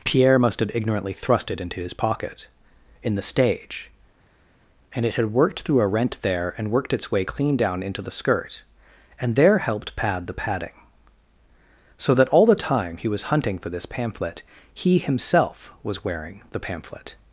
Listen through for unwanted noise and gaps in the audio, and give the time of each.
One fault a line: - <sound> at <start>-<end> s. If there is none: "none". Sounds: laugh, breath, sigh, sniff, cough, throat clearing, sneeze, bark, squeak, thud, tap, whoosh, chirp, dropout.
none